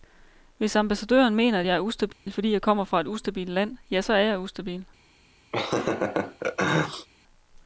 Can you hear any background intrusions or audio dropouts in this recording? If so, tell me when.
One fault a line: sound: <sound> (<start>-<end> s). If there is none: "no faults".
sound: dropout (2.1-2.3 s)
sound: laugh (5.5-7.1 s)